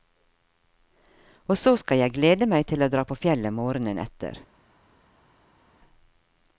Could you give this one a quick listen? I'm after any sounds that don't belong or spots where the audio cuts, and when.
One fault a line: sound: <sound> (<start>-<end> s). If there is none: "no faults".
no faults